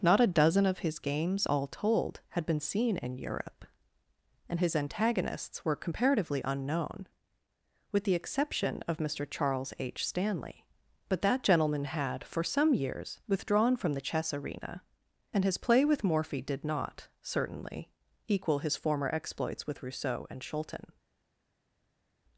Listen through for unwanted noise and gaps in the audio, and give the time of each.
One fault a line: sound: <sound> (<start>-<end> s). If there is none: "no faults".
no faults